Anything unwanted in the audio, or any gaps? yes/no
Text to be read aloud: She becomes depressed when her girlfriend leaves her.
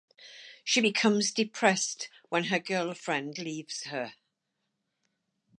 no